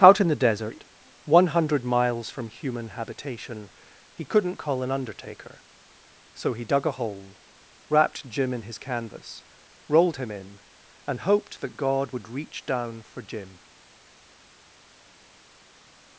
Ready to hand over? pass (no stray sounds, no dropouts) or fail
pass